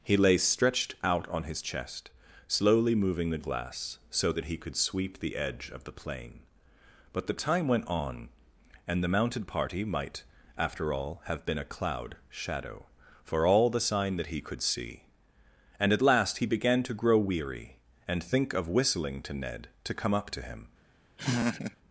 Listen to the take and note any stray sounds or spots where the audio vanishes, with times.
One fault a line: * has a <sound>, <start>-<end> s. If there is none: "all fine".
* has a laugh, 21.2-21.8 s